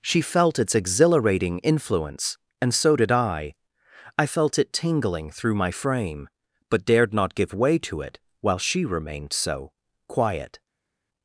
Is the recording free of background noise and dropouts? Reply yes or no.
yes